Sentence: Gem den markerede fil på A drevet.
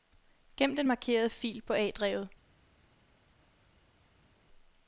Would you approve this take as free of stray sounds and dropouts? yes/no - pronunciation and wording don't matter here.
yes